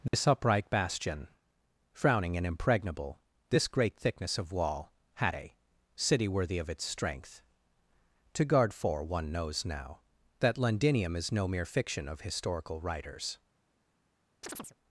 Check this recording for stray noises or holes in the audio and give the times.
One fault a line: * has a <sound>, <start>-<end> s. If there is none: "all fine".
* has a dropout, 0.1-0.1 s
* has a chirp, 14.4-14.8 s